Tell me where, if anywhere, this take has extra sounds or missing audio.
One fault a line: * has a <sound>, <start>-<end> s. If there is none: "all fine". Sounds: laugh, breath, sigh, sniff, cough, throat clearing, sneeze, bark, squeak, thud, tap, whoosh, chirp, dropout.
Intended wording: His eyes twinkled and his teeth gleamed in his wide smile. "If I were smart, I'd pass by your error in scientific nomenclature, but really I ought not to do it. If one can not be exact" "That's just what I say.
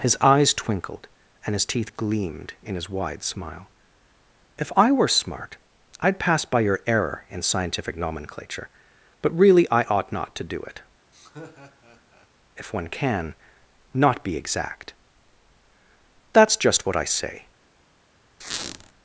* has a laugh, 11.1-12.3 s
* has a squeak, 18.4-18.9 s